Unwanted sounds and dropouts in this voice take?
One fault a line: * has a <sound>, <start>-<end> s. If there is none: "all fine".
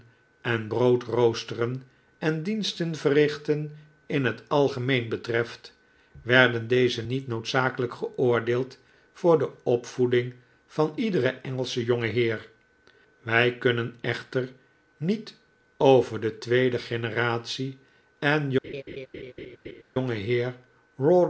* has a laugh, 18.6-19.8 s